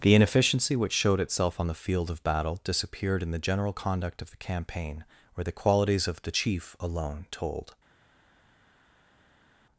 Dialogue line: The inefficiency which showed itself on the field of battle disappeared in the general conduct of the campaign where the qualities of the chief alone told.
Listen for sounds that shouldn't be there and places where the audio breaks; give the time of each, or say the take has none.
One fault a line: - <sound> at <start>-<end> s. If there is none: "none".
none